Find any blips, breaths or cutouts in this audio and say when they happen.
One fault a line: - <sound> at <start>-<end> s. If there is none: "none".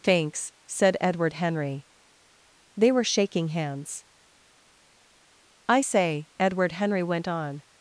none